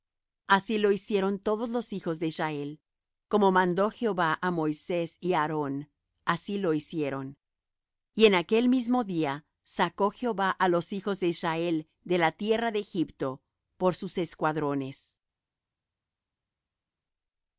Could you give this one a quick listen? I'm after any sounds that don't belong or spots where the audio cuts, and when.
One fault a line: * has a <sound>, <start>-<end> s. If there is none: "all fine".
all fine